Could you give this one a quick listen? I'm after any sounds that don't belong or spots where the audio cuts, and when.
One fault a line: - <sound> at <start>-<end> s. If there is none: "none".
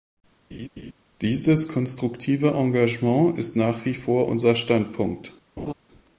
- laugh at 0.5-0.9 s
- laugh at 5.6-5.7 s